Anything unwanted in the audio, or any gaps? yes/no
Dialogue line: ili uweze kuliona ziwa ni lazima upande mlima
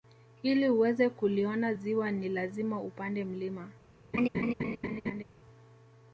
yes